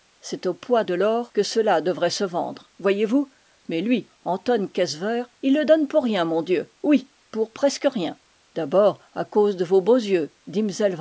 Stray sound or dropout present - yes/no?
no